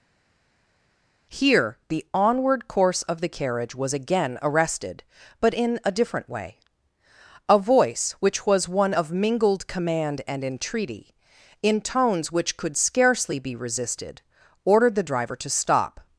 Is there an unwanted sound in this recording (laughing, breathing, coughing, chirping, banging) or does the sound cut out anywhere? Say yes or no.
no